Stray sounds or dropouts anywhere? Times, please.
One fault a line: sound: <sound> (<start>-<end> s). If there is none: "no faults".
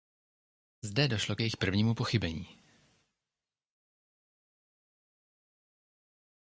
no faults